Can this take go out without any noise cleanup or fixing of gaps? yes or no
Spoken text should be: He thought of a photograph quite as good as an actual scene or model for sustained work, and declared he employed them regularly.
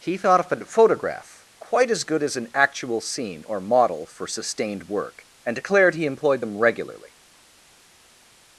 yes